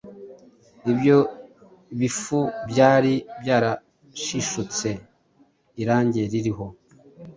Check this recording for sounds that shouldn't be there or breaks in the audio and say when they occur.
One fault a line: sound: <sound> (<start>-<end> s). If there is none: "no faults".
no faults